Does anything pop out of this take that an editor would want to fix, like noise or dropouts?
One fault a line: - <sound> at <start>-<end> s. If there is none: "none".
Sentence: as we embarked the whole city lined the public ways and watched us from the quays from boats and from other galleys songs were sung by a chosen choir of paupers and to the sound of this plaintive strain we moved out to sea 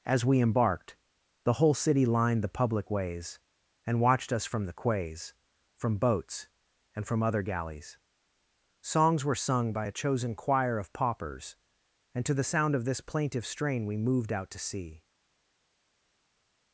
none